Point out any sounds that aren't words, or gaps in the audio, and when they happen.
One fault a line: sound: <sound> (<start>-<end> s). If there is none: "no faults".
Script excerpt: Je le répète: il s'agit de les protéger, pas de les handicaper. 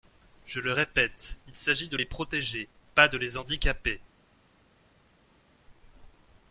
no faults